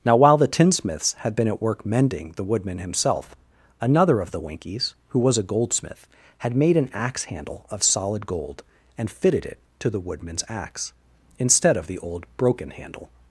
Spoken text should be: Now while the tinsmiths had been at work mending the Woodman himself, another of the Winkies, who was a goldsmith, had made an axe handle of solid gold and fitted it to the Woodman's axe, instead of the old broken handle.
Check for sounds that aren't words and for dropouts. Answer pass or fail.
pass